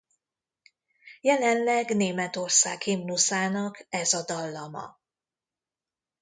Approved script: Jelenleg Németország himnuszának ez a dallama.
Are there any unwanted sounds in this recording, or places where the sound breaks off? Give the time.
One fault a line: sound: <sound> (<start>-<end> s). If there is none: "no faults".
no faults